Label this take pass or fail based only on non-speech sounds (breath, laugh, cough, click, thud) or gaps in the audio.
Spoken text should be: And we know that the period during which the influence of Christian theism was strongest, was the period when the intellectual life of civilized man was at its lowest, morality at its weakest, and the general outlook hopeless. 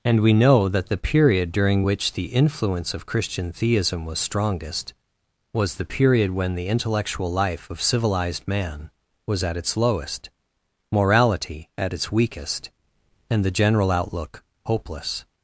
pass